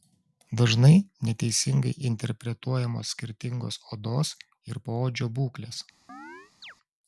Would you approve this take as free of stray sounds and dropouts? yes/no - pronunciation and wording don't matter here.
no